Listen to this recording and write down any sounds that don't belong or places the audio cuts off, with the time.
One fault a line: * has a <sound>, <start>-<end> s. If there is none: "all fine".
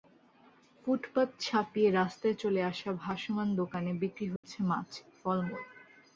* has a dropout, 4.4-4.4 s